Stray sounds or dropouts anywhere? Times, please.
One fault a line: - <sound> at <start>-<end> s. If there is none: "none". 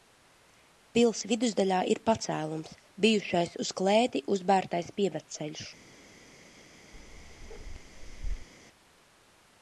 - bark at 6.9-8.5 s